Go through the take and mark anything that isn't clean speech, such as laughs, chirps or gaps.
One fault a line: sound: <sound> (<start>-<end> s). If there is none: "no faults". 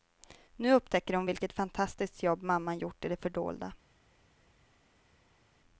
no faults